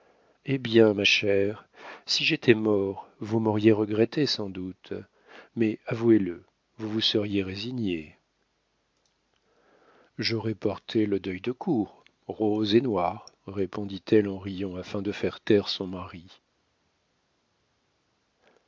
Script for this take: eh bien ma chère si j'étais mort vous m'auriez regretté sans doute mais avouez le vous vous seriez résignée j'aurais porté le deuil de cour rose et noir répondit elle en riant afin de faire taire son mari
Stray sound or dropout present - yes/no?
no